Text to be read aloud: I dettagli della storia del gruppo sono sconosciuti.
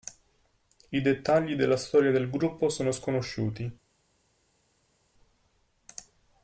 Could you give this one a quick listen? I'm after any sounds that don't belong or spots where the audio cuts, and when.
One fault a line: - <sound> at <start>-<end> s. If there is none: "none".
none